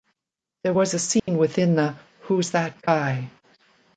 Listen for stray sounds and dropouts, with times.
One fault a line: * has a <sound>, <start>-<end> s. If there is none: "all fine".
* has a dropout, 1.2-1.3 s